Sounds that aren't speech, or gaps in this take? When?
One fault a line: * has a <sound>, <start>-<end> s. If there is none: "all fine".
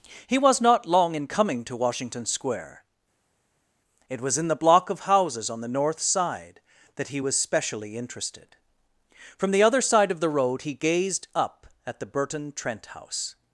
all fine